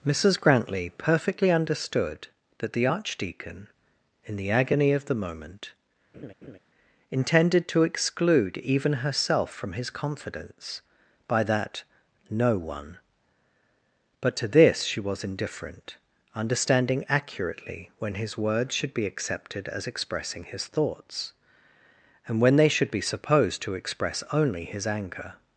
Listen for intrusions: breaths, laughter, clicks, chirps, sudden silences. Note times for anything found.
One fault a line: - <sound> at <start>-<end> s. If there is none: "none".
- laugh at 6.1-6.6 s